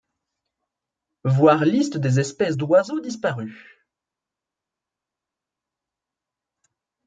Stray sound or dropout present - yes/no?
no